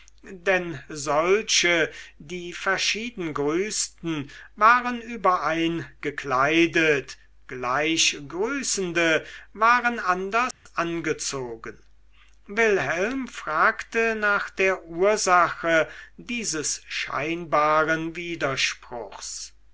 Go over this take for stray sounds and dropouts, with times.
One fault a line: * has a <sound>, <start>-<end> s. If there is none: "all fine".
* has a dropout, 10.5-10.7 s